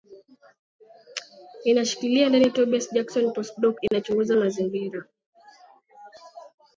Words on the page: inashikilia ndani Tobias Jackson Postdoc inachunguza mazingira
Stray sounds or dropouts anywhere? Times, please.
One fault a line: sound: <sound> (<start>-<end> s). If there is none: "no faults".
sound: dropout (3.9-3.9 s)